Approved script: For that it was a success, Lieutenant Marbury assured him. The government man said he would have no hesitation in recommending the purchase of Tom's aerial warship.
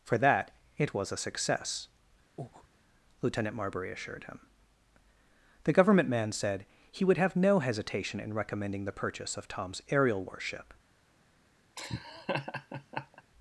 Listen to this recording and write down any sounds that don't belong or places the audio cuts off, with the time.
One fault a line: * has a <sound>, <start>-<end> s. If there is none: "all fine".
* has a breath, 2.4-2.7 s
* has a laugh, 11.8-13.2 s